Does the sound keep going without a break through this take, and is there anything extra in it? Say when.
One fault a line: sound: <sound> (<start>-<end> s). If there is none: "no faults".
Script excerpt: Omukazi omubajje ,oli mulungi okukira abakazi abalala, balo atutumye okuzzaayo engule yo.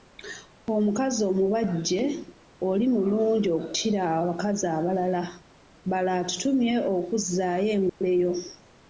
sound: dropout (7.9-8.0 s)